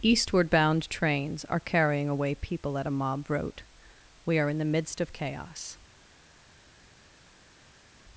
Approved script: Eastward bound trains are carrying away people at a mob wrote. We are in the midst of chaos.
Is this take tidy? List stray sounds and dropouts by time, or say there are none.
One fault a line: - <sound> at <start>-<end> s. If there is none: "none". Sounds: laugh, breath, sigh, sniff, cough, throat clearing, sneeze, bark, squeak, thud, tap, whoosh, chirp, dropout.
none